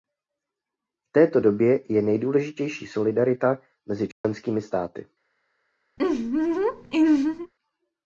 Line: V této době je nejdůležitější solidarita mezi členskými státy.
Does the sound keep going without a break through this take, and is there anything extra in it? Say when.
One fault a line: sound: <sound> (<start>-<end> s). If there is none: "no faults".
sound: dropout (4.1-4.2 s)
sound: laugh (6.0-7.5 s)